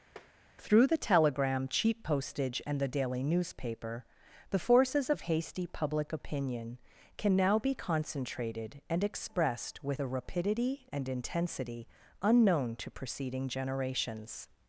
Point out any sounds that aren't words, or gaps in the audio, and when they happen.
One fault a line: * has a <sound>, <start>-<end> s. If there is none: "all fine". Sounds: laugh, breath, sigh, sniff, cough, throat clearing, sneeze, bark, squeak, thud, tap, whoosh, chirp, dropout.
* has a tap, 0.2-0.3 s